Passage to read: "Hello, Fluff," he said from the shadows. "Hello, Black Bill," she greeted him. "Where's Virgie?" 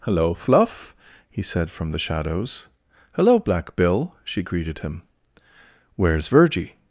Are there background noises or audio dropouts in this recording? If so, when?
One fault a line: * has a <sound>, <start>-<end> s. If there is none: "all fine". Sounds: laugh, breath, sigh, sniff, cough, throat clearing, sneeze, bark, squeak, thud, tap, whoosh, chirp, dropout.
all fine